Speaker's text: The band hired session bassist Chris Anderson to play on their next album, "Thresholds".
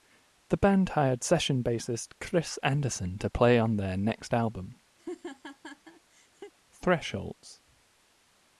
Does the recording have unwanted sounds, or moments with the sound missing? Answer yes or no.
yes